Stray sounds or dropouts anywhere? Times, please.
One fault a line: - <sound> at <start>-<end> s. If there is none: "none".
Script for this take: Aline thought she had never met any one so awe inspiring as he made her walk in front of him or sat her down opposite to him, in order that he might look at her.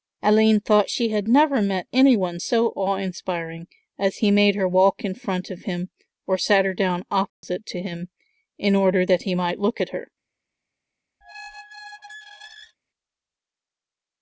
- dropout at 7.3-7.4 s
- squeak at 11.2-12.8 s